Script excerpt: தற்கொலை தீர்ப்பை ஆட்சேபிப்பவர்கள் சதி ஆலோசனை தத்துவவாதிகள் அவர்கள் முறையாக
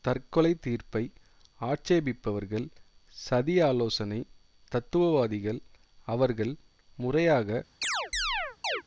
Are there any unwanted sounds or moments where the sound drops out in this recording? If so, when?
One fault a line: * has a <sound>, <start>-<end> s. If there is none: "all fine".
* has a chirp, 7.8-8.8 s